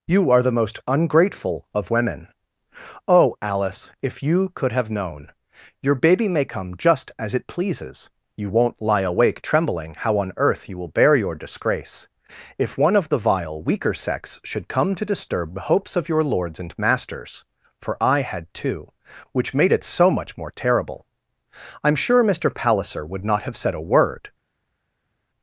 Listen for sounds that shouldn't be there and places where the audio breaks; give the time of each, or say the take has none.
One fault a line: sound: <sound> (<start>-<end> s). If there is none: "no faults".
no faults